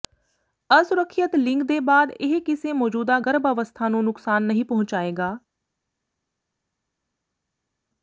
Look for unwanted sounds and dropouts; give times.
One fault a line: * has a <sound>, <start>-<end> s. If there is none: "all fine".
all fine